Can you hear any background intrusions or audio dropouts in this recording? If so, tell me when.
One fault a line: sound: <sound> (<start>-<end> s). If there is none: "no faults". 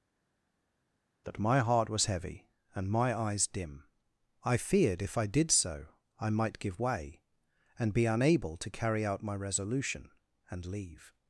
no faults